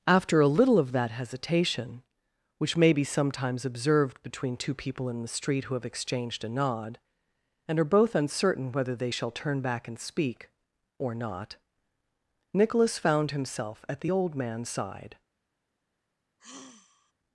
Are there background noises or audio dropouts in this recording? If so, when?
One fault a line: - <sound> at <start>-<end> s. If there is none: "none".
- sigh at 16.4-17.1 s